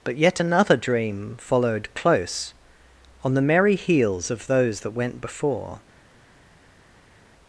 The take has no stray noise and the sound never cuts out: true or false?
true